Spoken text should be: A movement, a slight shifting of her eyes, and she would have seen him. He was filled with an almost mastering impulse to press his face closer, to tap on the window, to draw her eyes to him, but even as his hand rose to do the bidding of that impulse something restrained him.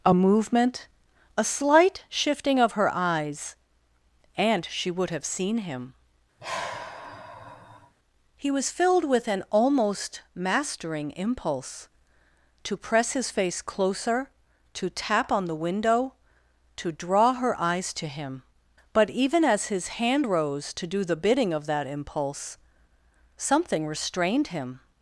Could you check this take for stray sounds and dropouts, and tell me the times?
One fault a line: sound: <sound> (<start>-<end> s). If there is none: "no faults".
sound: sigh (6.4-7.9 s)